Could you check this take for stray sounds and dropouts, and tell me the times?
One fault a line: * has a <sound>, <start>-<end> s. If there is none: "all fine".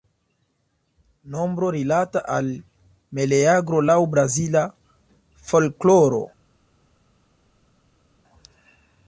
all fine